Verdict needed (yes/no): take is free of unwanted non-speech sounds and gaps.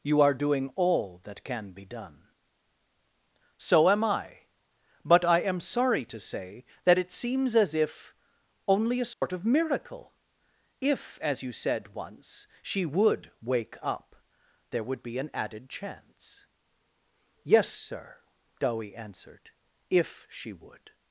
no